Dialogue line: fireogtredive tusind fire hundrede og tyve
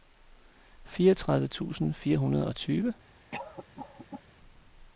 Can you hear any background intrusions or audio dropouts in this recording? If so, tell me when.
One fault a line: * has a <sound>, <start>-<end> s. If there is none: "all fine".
* has a cough, 3.3-4.2 s